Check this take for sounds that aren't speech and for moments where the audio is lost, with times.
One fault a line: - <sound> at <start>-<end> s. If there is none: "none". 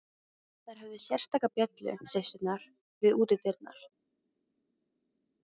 none